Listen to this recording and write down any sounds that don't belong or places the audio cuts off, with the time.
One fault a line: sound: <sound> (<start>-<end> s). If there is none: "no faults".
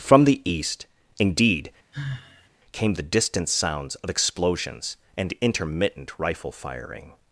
sound: sigh (1.9-2.5 s)